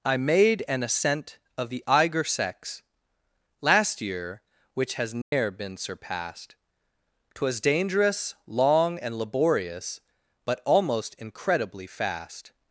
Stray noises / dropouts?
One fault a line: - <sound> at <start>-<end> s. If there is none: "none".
- dropout at 5.2-5.3 s